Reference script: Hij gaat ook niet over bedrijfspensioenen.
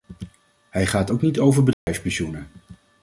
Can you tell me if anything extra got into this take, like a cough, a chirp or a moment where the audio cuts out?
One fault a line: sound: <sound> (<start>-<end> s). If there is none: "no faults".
sound: dropout (1.7-1.9 s)